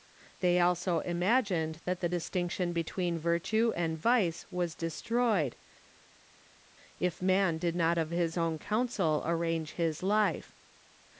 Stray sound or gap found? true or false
false